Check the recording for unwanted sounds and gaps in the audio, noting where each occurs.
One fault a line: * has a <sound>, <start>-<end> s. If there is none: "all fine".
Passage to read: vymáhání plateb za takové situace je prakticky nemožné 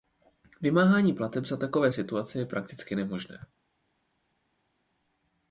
all fine